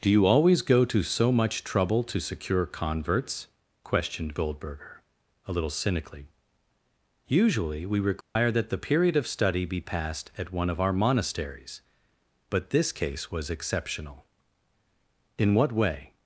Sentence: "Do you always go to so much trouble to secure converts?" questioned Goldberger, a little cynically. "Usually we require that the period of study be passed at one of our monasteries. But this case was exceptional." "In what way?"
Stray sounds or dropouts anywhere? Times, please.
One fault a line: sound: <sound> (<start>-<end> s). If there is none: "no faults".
sound: dropout (8.2-8.4 s)